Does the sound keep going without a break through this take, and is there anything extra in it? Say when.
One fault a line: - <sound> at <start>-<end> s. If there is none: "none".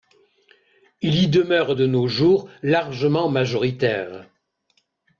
none